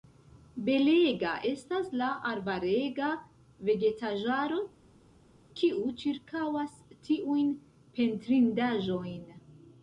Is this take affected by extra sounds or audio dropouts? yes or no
no